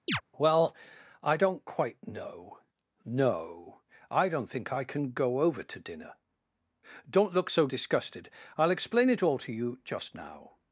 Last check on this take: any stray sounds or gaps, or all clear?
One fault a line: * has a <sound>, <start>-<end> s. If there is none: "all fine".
* has a chirp, 0.1-0.2 s